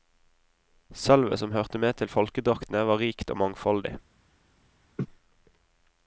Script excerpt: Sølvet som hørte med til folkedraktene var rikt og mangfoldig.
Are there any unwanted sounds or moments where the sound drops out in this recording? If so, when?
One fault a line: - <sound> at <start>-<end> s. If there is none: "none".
- laugh at 5.0-5.1 s